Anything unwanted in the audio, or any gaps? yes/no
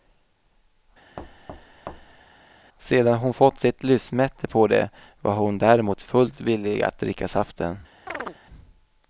yes